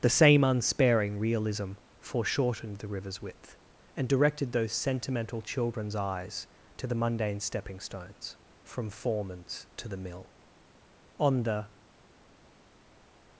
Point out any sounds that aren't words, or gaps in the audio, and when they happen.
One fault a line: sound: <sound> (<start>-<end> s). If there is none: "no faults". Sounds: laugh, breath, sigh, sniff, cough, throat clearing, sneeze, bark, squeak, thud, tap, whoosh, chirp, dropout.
no faults